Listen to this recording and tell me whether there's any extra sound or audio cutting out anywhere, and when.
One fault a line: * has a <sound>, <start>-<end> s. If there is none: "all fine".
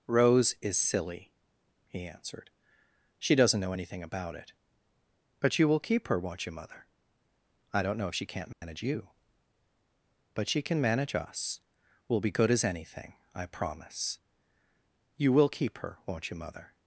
* has a dropout, 8.5-8.6 s